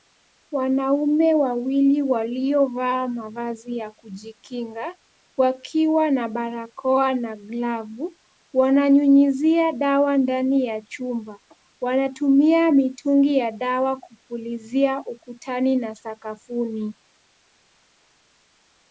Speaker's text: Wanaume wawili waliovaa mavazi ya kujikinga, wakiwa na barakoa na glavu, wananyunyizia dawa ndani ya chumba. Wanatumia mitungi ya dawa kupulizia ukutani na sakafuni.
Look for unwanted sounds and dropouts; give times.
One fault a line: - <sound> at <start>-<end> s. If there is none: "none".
none